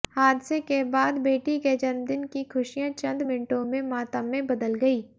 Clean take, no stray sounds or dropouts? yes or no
yes